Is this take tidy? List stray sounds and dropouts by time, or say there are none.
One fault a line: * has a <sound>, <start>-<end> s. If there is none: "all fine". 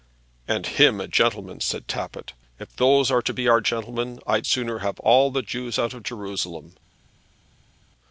all fine